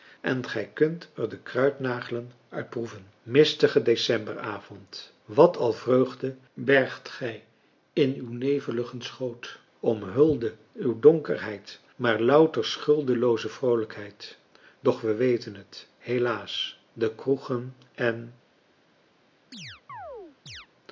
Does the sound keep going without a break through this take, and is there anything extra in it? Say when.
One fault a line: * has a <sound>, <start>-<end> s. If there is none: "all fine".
* has a chirp, 19.5-20.7 s